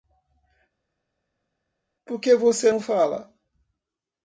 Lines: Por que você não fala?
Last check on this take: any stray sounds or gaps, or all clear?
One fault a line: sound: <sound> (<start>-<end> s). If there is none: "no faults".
no faults